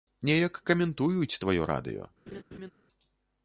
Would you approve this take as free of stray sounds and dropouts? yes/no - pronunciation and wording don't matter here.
no